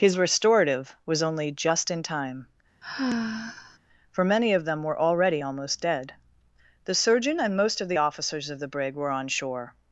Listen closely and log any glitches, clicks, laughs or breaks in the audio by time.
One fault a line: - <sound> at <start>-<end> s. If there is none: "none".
- sigh at 2.8-3.8 s